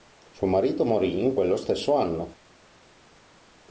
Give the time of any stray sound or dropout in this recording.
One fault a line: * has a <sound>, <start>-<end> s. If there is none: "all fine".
all fine